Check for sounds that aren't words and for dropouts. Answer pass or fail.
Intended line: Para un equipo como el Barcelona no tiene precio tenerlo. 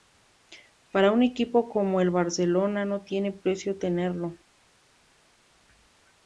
pass